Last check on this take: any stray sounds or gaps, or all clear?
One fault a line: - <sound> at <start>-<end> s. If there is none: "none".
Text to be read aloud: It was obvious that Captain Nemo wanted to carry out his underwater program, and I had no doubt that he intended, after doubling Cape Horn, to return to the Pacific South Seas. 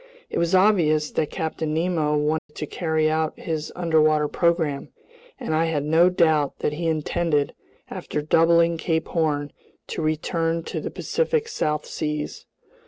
- dropout at 2.4-2.5 s